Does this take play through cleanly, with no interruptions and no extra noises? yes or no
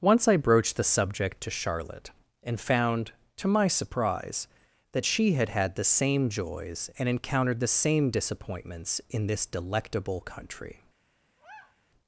no